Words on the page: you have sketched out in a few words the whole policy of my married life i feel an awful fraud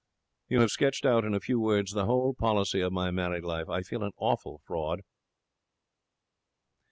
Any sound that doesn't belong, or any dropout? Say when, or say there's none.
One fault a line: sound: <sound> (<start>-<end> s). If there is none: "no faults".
no faults